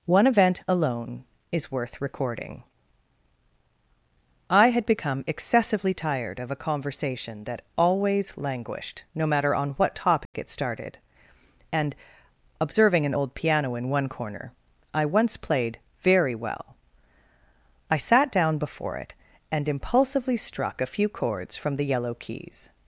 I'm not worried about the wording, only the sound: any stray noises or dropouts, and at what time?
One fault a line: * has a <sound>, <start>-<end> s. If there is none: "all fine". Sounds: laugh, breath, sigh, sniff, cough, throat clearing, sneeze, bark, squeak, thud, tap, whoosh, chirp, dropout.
* has a dropout, 10.3-10.3 s